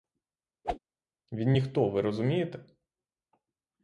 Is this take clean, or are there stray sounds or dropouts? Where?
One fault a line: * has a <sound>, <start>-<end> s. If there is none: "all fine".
* has a whoosh, 0.6-0.8 s